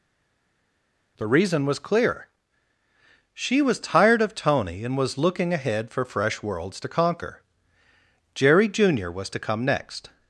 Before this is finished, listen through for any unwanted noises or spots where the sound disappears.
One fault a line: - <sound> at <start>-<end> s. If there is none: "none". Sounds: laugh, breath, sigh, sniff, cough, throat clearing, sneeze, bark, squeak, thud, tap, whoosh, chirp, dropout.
none